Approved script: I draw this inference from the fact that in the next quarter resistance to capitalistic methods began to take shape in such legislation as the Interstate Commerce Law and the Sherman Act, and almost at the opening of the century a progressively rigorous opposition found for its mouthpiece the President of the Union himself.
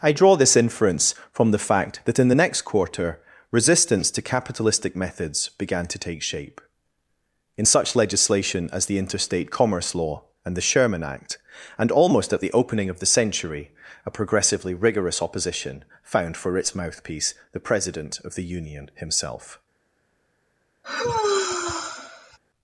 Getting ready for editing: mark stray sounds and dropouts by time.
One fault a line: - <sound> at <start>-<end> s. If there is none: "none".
- sigh at 20.8-22.4 s